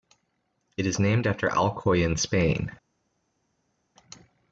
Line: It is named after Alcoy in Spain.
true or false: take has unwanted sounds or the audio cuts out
false